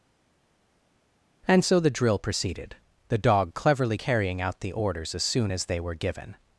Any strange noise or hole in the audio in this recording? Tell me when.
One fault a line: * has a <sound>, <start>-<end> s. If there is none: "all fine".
all fine